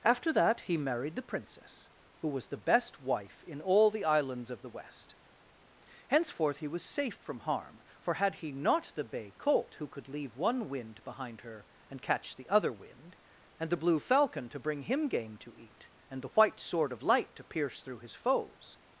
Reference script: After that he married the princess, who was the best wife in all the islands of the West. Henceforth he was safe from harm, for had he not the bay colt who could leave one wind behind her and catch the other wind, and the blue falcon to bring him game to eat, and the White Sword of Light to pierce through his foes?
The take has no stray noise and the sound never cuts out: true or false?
true